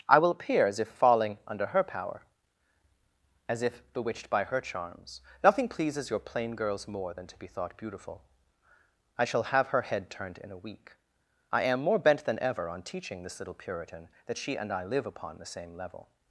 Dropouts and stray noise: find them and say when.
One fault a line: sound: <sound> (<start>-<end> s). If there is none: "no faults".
no faults